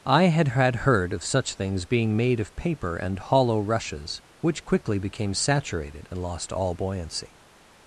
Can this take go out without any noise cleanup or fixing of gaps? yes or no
yes